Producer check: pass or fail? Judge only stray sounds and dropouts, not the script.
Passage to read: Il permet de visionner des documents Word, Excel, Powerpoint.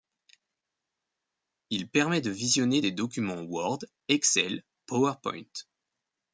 pass